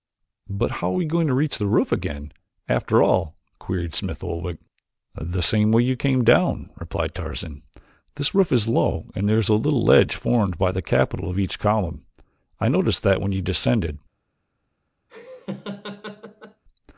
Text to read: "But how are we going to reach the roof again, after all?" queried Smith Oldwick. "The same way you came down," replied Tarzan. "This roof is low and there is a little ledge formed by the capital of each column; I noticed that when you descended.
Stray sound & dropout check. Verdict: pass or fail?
fail